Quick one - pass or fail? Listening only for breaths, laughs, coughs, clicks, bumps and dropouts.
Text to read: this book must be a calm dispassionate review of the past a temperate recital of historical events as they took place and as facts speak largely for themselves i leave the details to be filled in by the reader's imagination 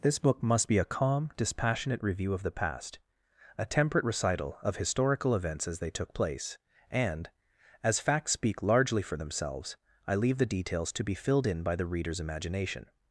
pass